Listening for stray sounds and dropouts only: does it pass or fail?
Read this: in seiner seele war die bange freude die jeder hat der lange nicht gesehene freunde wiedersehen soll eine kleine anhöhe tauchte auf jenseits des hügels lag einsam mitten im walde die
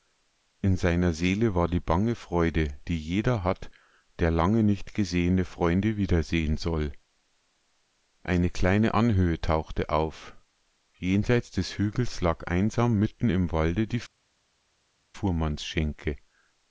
pass